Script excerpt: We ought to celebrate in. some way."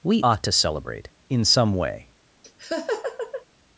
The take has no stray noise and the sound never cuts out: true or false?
false